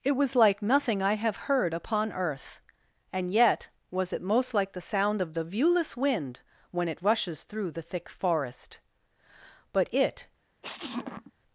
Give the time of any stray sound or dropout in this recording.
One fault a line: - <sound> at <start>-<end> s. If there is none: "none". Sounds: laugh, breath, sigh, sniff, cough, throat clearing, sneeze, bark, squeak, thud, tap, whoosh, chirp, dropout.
- sneeze at 10.6-11.3 s